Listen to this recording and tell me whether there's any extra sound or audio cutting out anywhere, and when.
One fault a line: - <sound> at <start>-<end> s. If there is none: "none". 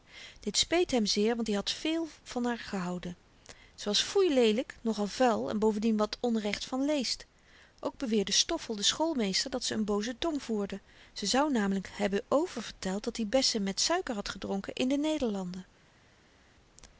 none